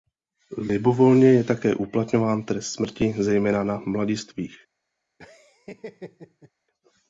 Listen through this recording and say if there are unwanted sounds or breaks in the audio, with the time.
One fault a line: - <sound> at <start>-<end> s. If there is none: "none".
- laugh at 5.2-6.5 s